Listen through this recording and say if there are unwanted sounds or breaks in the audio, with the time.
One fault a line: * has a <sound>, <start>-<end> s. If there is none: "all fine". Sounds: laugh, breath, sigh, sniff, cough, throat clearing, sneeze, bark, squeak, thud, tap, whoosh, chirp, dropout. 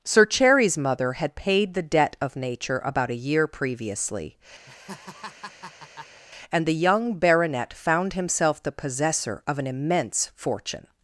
* has a laugh, 4.7-6.2 s